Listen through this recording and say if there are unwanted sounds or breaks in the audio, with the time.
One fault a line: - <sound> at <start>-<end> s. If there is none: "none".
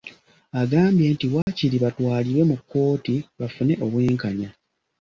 - dropout at 1.4-1.5 s